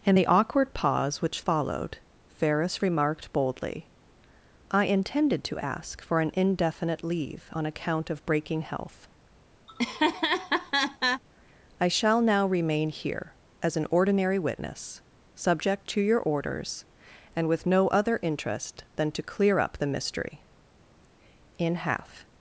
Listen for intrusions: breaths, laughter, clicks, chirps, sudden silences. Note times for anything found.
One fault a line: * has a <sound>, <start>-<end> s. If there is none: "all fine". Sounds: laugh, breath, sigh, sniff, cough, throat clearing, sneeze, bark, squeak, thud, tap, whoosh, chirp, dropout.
* has a laugh, 9.7-11.2 s